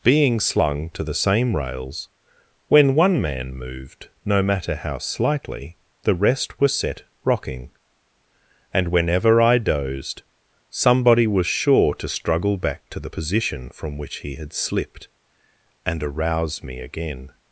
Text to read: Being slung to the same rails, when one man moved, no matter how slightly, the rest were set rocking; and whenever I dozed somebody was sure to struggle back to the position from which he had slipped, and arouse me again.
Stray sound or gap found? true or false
false